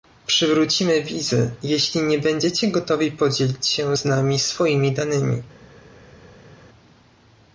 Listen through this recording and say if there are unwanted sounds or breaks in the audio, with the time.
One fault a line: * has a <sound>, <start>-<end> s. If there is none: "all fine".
all fine